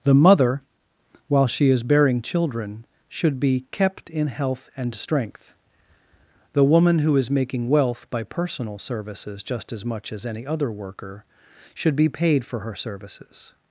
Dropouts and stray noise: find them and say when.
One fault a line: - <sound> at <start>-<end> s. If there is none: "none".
none